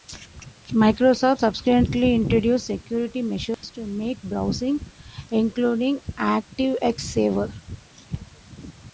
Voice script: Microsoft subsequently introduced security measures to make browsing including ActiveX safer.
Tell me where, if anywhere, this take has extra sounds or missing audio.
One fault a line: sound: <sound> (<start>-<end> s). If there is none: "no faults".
sound: dropout (3.5-3.6 s)